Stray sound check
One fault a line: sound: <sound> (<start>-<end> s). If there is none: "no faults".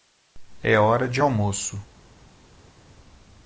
no faults